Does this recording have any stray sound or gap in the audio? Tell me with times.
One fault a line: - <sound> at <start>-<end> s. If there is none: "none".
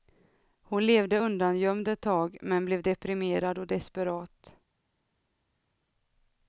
none